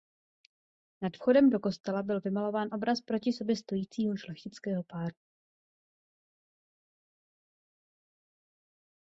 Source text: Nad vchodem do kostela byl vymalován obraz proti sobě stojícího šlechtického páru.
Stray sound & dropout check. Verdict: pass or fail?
pass